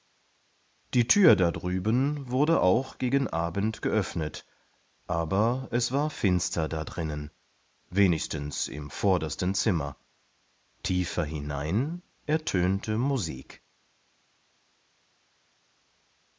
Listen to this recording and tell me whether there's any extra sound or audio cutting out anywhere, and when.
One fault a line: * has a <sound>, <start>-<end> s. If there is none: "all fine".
all fine